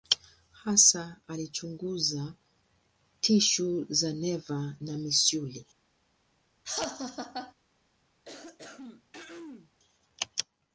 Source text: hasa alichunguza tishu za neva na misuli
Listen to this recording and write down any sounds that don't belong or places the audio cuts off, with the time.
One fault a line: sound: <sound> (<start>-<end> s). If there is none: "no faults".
sound: laugh (6.6-7.5 s)
sound: throat clearing (8.2-9.7 s)